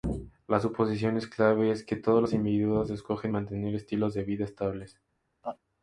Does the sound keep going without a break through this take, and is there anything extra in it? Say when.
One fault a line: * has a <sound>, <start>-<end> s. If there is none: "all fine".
* has a laugh, 5.4-5.6 s